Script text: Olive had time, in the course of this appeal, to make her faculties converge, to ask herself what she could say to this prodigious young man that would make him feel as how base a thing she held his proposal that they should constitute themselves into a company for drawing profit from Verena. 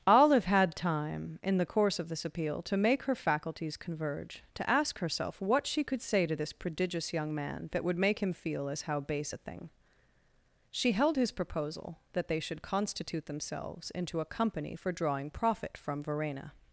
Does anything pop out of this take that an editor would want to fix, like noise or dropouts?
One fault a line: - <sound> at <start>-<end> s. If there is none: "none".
none